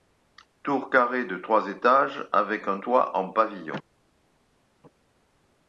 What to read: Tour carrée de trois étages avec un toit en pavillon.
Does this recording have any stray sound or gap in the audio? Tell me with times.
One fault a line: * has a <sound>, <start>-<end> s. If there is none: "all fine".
all fine